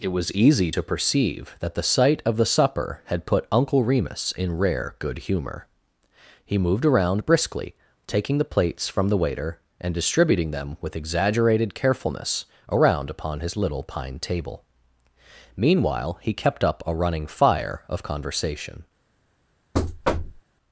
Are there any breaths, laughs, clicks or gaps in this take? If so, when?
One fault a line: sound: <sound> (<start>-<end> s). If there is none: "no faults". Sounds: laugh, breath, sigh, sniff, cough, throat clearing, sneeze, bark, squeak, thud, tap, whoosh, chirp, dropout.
sound: thud (19.7-20.4 s)